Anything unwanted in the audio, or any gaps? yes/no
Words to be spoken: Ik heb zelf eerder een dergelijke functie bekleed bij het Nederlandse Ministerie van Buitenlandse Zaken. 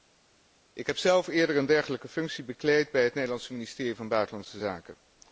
no